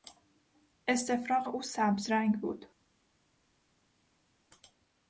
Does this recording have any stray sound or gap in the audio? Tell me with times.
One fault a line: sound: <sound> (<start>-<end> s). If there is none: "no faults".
no faults